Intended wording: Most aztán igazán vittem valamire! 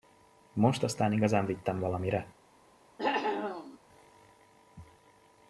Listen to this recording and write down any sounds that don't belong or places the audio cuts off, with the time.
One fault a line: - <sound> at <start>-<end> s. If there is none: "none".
- cough at 3.0-3.8 s